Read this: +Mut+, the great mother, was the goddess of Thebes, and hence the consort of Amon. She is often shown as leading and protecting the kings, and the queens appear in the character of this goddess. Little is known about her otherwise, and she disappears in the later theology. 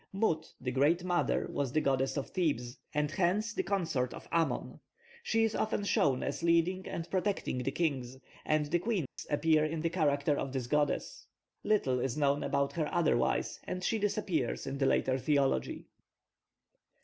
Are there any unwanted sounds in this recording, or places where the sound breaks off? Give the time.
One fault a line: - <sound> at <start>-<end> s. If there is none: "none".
- dropout at 9.1-9.2 s